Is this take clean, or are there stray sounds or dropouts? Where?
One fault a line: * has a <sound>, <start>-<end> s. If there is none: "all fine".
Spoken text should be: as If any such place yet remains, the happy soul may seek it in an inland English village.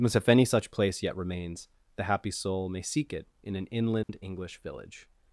* has a dropout, 4.0-4.1 s